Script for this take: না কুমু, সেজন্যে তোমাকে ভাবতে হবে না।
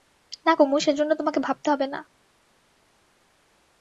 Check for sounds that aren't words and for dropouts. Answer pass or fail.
pass